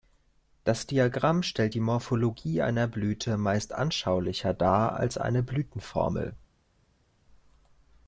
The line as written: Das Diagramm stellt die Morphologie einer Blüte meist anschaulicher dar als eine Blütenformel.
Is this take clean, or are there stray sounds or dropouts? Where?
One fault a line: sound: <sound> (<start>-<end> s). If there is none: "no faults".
no faults